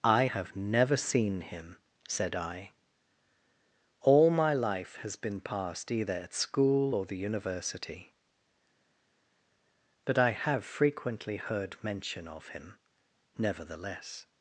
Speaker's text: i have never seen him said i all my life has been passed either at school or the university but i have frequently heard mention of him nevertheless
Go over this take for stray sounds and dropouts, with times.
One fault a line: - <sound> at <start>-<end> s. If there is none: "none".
none